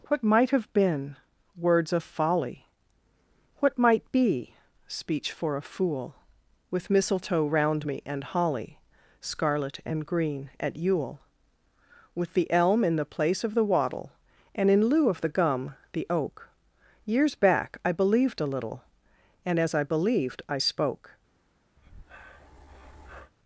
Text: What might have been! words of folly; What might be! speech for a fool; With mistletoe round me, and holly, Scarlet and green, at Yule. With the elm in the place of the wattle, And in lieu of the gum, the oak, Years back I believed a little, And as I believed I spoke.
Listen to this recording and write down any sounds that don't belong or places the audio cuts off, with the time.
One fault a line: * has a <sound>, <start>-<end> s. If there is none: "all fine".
* has a breath, 21.8-23.3 s